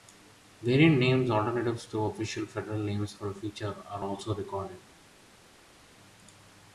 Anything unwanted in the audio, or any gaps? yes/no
no